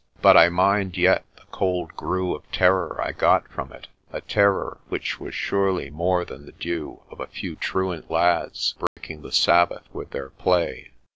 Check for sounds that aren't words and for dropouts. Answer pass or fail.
fail